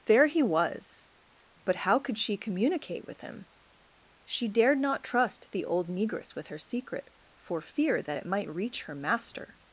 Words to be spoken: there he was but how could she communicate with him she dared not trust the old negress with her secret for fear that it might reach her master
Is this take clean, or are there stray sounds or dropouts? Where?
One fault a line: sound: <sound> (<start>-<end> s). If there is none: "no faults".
no faults